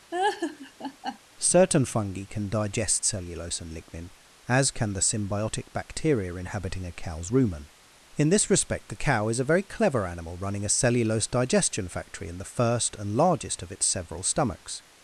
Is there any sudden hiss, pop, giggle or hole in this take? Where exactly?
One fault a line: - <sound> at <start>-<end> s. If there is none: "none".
- laugh at 0.1-1.2 s